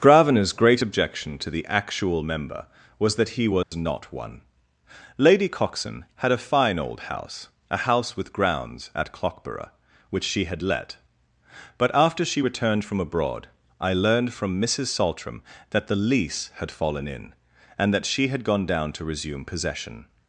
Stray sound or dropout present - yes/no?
yes